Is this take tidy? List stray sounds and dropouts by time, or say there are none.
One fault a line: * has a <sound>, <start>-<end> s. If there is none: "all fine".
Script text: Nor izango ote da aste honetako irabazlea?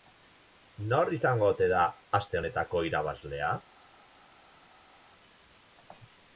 all fine